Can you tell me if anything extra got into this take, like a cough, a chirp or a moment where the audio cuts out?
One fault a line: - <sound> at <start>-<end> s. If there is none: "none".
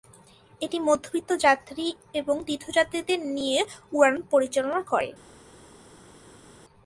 none